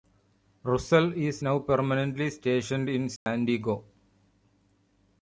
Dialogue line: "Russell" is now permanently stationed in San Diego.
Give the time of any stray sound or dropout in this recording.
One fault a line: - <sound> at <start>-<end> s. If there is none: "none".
- dropout at 3.2-3.3 s